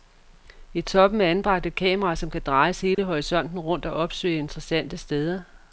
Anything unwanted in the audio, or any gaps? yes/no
yes